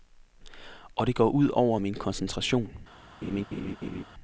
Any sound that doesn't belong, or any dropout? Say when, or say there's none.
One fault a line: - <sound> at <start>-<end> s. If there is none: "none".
- laugh at 3.2-4.0 s